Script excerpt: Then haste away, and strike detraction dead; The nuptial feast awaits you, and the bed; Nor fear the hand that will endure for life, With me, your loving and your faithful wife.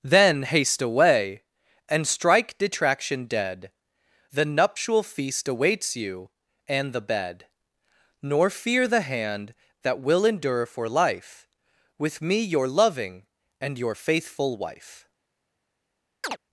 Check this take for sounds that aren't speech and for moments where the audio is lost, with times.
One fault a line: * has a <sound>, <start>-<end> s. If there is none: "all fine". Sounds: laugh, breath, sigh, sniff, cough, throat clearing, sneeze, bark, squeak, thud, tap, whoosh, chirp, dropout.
* has a chirp, 16.2-16.4 s